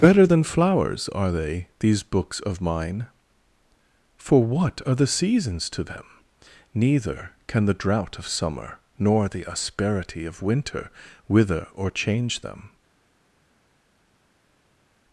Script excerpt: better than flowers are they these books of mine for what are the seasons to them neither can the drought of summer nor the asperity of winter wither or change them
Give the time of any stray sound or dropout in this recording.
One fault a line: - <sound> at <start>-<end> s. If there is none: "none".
none